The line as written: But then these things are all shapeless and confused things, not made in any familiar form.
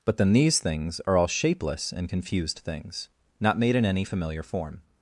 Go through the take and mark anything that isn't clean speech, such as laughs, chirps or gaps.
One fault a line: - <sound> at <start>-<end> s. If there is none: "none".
none